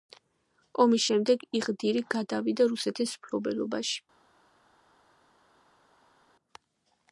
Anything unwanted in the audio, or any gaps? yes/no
no